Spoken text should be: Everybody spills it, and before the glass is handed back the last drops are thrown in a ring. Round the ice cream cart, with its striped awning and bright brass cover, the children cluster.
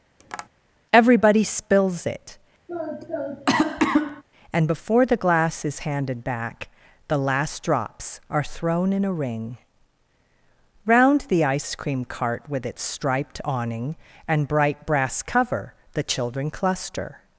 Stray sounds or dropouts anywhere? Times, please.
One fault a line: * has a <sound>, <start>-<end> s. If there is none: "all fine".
* has a tap, 0.2-0.5 s
* has a cough, 2.7-4.2 s